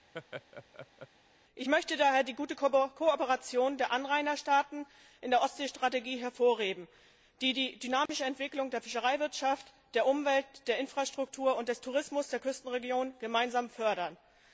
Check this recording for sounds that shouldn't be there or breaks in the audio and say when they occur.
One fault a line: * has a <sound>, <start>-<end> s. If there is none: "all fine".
* has a laugh, 0.1-1.1 s
* has a dropout, 8.1-8.1 s